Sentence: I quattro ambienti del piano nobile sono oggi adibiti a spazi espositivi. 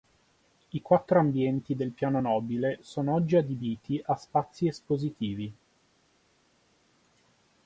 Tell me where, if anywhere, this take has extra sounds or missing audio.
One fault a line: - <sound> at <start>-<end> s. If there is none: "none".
none